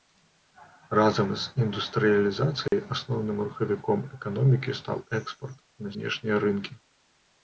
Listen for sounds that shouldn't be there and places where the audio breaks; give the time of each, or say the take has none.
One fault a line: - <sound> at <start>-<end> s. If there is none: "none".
- dropout at 2.7-2.7 s